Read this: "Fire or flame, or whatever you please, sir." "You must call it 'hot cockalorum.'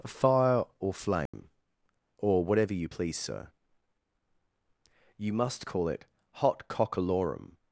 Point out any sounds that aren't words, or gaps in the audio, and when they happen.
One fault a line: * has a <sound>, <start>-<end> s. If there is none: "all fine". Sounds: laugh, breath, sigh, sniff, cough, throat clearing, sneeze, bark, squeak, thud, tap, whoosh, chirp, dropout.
* has a dropout, 1.3-1.3 s